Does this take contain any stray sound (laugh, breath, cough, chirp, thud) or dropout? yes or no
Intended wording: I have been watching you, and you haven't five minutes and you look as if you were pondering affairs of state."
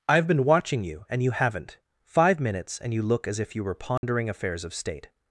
yes